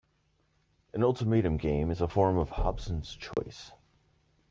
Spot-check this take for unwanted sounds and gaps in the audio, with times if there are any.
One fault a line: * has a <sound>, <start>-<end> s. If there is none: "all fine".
* has a dropout, 3.3-3.4 s